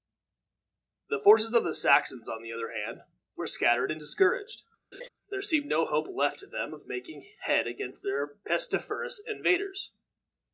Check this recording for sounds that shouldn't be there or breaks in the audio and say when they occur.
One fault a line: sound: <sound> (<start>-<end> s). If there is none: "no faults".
sound: laugh (4.9-5.1 s)